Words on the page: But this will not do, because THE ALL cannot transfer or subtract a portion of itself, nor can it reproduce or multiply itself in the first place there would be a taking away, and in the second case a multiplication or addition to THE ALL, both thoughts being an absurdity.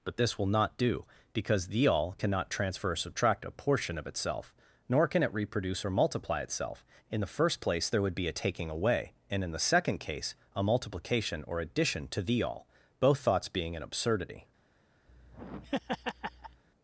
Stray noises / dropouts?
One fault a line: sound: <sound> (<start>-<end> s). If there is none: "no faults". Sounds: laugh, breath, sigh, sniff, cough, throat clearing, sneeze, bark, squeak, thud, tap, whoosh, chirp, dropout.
sound: laugh (15.1-16.6 s)